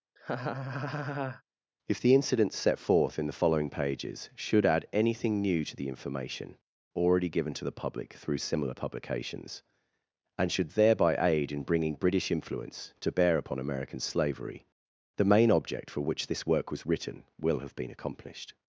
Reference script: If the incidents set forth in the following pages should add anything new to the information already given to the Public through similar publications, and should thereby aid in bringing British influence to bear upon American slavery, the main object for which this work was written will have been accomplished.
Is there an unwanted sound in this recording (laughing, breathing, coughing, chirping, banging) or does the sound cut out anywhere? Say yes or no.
yes